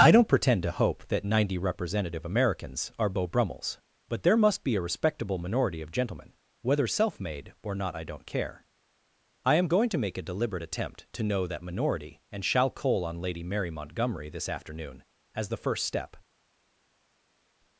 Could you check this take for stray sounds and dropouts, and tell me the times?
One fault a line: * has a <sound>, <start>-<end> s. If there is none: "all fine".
all fine